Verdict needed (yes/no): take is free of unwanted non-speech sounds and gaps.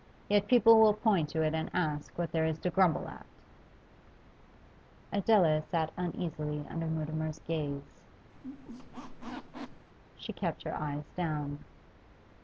no